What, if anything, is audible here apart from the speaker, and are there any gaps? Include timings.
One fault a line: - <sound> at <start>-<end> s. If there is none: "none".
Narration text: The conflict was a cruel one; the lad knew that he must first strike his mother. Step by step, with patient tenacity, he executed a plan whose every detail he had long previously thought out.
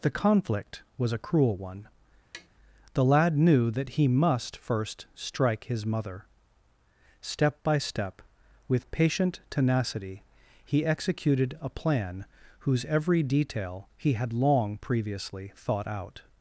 - tap at 2.3-2.5 s